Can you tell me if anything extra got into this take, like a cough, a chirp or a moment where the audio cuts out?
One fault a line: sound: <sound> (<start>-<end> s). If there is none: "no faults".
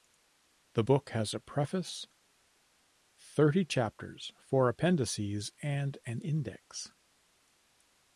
no faults